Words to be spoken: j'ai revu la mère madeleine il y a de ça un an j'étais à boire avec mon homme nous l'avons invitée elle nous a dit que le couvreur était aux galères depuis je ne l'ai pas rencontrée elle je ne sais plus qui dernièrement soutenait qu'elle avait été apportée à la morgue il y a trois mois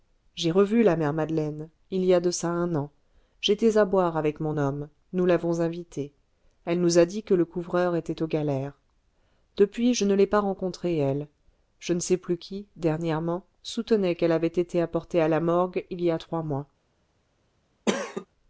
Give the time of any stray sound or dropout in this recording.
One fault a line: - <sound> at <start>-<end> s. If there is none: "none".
- cough at 17.9-18.3 s